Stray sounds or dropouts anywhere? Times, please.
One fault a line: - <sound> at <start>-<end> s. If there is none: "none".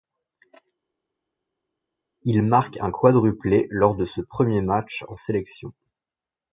none